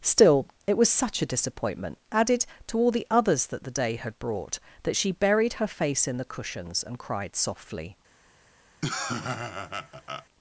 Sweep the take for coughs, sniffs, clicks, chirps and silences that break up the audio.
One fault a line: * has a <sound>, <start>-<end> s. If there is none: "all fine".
* has a laugh, 8.8-10.3 s